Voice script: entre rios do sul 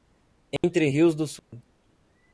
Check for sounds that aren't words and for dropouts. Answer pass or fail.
fail